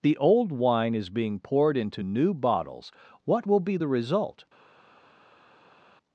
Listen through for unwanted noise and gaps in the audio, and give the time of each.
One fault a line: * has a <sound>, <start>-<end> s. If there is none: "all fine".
all fine